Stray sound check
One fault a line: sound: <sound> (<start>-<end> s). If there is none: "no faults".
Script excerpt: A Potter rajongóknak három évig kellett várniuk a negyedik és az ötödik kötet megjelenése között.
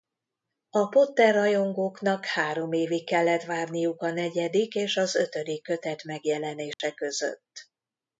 sound: dropout (6.7-6.8 s)